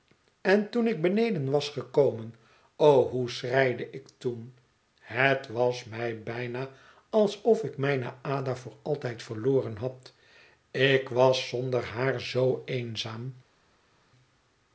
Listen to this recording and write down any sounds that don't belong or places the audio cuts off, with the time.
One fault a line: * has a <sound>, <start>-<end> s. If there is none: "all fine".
all fine